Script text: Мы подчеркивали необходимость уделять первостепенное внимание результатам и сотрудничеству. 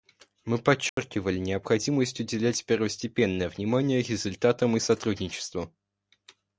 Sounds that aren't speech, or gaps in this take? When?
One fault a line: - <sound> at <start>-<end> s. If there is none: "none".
- dropout at 0.9-1.0 s